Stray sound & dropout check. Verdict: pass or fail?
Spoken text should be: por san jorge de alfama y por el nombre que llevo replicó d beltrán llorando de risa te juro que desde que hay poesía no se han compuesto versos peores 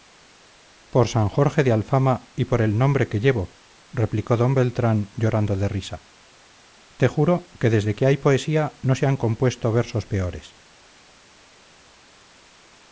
pass